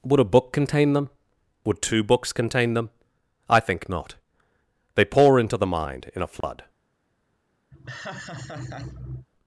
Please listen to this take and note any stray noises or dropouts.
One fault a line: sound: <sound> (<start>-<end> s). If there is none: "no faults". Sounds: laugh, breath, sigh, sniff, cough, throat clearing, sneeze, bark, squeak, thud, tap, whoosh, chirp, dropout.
sound: dropout (6.4-6.4 s)
sound: laugh (7.7-9.3 s)